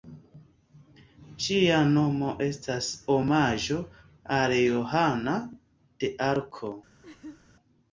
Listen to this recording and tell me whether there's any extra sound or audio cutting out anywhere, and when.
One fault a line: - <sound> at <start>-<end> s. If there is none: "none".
- laugh at 7.0-7.4 s